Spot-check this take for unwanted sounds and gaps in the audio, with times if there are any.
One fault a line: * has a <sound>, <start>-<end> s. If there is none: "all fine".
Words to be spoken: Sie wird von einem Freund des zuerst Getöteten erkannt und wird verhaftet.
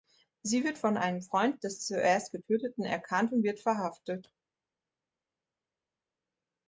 all fine